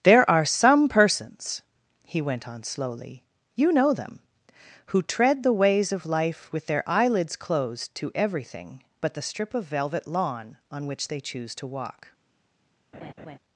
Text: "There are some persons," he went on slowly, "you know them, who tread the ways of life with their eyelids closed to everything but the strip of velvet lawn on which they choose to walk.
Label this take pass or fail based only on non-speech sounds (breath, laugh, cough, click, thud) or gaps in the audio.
fail